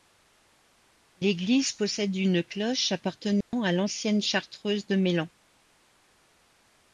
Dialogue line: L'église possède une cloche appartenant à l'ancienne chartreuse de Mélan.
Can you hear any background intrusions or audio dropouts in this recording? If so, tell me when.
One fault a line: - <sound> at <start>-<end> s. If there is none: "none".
- dropout at 3.4-3.5 s